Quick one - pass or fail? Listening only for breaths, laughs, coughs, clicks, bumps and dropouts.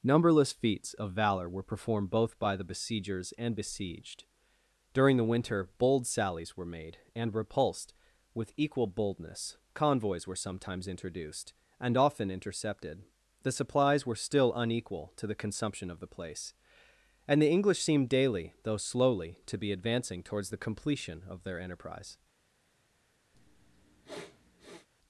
fail